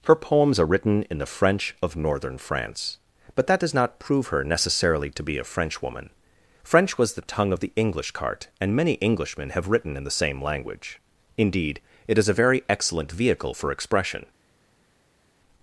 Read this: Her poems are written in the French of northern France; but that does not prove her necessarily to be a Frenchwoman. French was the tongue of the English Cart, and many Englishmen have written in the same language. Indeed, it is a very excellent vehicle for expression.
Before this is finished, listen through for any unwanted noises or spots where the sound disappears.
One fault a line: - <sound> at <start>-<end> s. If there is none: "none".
none